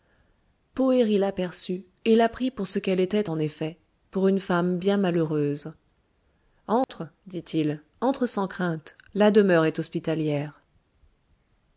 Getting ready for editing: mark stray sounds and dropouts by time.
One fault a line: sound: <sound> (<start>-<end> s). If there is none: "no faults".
sound: dropout (6.8-6.9 s)